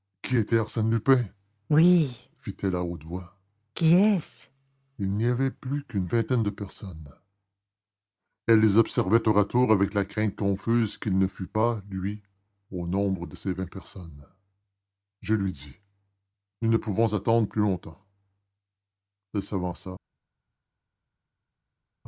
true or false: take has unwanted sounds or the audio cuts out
false